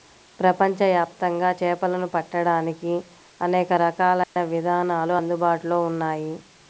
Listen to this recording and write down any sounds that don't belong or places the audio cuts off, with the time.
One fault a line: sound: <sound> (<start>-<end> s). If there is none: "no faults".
sound: dropout (4.2-4.4 s)